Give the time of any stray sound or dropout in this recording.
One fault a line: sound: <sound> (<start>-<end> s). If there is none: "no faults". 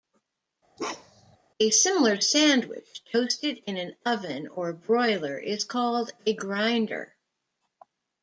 sound: bark (0.8-1.4 s)